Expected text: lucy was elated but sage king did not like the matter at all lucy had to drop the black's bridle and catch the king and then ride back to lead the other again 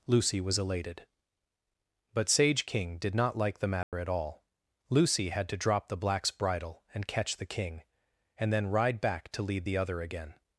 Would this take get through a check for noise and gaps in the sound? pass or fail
fail